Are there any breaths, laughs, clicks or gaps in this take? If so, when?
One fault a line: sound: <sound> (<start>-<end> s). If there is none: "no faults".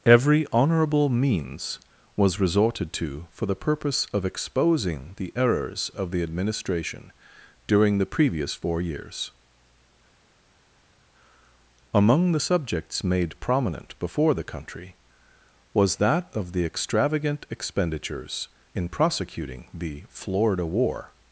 no faults